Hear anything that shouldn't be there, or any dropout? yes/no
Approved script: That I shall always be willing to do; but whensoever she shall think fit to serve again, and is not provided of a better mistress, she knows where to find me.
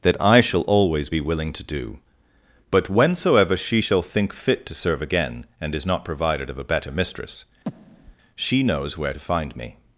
yes